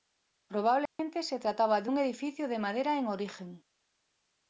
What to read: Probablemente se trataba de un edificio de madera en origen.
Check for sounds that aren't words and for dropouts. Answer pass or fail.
fail